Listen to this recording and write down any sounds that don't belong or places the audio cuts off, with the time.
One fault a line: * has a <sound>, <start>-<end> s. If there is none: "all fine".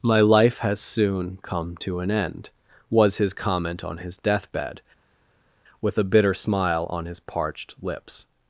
all fine